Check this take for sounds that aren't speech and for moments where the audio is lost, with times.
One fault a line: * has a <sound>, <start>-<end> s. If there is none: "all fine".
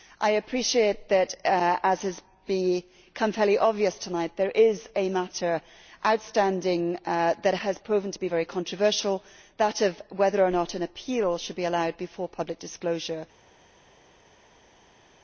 all fine